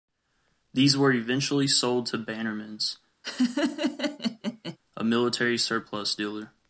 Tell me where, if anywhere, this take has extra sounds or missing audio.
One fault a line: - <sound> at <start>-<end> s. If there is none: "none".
- laugh at 3.2-4.8 s